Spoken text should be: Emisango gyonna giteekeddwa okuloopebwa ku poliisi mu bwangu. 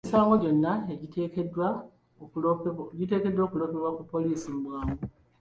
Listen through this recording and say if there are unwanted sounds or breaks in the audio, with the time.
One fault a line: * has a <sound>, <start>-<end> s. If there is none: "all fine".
all fine